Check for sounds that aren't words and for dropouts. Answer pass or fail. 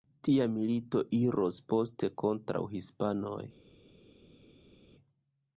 pass